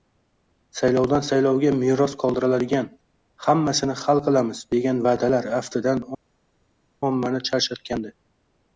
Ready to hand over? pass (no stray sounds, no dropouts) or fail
pass